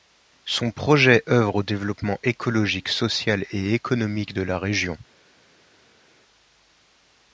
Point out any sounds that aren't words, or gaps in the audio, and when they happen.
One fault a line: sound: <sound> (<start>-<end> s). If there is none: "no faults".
no faults